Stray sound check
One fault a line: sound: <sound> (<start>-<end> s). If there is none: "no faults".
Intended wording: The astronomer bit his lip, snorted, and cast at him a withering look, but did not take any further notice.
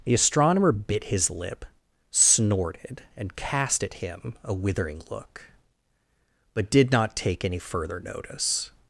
no faults